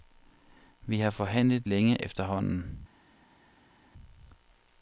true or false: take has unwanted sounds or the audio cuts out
false